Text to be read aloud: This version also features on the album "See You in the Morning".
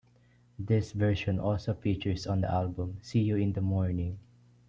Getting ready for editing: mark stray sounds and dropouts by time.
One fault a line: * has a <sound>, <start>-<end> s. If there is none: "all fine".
all fine